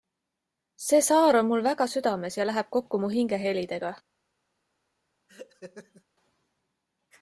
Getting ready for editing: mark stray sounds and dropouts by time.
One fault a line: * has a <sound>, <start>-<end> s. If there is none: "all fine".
* has a laugh, 5.3-6.0 s